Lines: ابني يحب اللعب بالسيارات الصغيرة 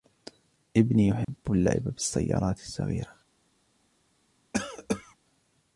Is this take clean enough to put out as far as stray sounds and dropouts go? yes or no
no